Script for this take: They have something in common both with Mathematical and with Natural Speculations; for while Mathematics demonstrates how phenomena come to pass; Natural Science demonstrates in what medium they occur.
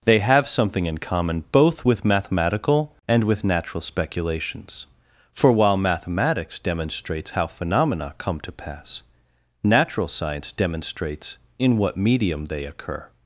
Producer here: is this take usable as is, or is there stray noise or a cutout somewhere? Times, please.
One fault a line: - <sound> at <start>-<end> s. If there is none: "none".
none